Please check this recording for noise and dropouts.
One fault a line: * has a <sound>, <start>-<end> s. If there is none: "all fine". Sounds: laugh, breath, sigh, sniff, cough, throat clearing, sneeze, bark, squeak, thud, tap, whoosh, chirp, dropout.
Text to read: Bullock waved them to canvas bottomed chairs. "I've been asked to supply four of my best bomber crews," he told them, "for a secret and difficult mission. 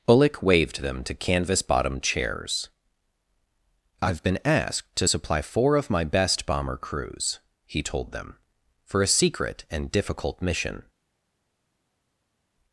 all fine